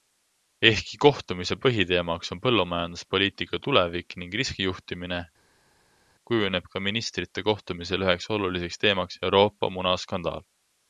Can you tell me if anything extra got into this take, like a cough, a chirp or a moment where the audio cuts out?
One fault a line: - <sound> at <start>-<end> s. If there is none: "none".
none